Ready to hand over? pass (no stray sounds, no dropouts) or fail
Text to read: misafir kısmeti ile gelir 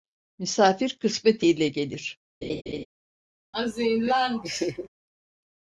fail